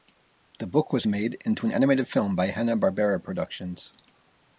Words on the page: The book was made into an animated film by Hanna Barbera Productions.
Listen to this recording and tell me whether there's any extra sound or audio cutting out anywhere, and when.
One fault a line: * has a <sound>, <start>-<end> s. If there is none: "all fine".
all fine